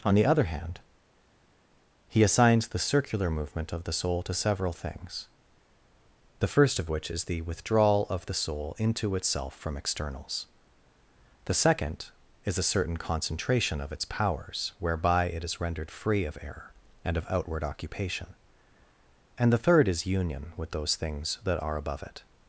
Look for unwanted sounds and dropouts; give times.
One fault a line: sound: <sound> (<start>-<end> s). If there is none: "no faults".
no faults